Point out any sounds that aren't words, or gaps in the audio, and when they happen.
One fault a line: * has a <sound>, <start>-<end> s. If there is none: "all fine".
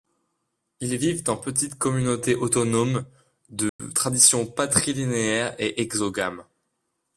* has a dropout, 3.7-3.8 s